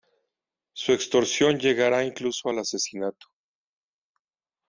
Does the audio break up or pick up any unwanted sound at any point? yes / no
no